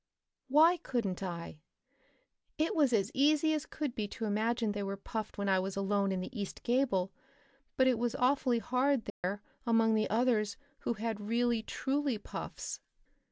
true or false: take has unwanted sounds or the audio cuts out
true